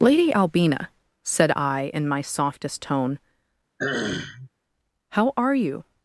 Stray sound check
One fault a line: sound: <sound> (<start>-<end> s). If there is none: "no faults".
sound: throat clearing (3.8-4.5 s)